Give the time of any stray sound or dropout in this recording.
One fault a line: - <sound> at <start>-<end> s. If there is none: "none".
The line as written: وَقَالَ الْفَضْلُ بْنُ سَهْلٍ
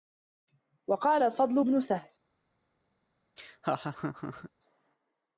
- laugh at 3.4-4.5 s